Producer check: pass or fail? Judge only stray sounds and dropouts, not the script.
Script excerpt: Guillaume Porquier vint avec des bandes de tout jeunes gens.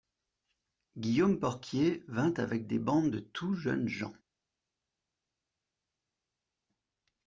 pass